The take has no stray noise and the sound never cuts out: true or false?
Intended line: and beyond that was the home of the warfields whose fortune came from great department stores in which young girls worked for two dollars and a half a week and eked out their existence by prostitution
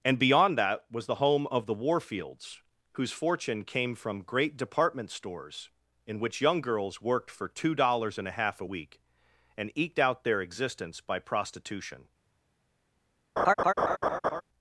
false